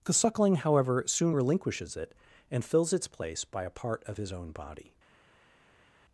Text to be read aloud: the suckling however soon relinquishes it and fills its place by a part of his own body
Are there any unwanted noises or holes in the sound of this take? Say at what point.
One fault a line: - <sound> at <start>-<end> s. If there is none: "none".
none